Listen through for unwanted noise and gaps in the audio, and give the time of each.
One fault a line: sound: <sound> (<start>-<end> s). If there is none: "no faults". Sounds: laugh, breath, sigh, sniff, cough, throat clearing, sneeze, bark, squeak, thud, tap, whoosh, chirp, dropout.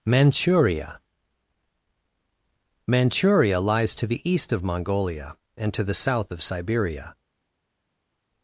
no faults